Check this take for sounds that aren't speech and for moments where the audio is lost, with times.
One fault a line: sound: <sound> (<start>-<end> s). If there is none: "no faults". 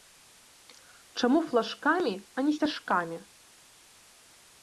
no faults